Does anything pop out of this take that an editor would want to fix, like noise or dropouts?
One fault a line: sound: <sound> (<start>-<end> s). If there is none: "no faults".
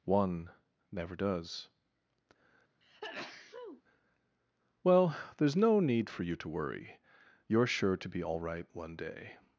sound: sneeze (2.8-3.8 s)